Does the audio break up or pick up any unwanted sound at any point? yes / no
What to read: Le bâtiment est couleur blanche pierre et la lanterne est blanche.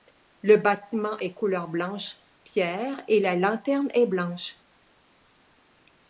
no